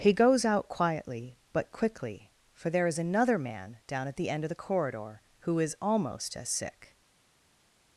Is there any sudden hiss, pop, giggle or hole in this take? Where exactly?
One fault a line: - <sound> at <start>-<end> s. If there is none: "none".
none